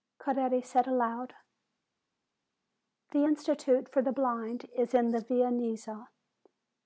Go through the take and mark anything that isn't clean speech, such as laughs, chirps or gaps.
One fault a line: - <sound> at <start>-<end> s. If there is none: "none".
none